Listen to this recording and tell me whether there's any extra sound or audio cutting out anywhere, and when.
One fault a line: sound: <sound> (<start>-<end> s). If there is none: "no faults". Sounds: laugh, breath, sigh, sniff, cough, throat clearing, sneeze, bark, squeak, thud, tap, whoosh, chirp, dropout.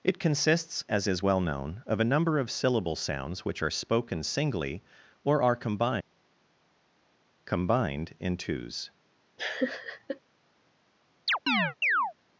sound: laugh (9.4-10.2 s)
sound: chirp (11.3-12.1 s)